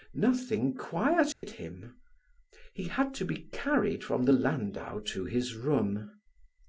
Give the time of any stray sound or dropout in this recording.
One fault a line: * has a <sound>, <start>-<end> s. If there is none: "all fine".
* has a dropout, 1.3-1.4 s